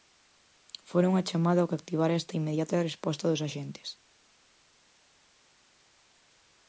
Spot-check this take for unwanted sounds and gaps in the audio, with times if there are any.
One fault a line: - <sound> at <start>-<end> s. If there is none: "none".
none